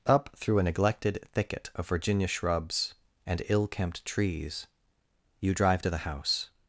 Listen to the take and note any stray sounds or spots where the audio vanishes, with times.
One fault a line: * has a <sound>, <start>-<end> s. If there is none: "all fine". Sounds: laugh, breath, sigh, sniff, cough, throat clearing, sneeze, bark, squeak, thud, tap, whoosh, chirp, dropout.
all fine